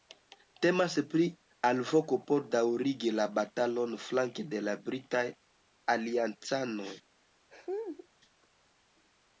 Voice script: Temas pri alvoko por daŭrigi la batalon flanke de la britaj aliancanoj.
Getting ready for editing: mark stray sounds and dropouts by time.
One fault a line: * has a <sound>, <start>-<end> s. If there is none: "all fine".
* has a laugh, 7.5-8.1 s